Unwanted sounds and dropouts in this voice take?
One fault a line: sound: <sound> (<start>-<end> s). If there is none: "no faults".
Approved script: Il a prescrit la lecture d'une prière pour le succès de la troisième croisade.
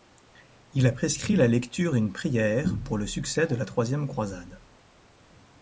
no faults